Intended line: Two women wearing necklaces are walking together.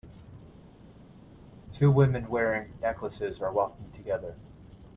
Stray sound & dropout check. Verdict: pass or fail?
pass